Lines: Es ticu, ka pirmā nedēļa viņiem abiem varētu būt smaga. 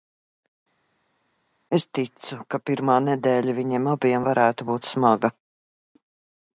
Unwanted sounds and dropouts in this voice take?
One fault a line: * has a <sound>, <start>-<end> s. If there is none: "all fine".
all fine